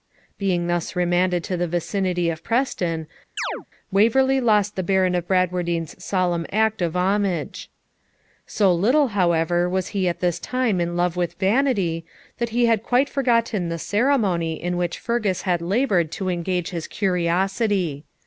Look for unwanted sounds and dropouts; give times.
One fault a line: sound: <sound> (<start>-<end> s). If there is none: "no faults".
sound: chirp (3.4-3.7 s)